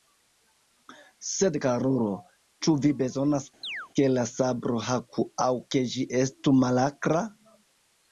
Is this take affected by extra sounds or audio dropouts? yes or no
yes